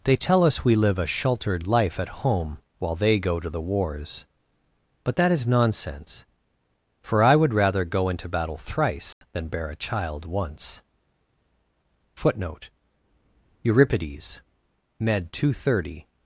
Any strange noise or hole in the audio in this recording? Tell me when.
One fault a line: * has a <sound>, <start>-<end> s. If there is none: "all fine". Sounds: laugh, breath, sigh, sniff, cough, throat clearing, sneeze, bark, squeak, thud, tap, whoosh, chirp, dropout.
* has a dropout, 9.1-9.2 s